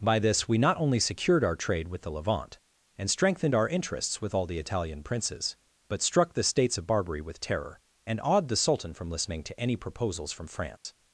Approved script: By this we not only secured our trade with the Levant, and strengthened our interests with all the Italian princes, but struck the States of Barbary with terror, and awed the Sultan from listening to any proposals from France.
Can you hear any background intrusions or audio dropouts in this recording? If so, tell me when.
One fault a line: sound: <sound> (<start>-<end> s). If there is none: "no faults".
sound: dropout (10.8-10.8 s)